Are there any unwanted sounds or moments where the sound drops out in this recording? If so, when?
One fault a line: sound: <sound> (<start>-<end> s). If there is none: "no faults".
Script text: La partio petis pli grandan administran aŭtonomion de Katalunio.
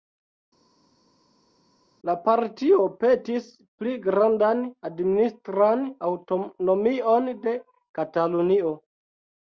no faults